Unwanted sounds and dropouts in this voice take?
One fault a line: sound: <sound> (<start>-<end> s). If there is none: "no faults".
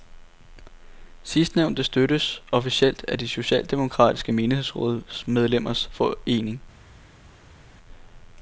no faults